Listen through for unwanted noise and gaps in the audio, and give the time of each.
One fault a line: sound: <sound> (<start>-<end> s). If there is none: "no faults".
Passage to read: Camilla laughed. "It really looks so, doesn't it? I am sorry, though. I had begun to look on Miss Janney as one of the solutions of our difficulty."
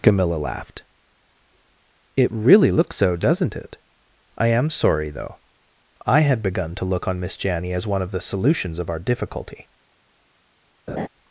sound: laugh (10.9-11.1 s)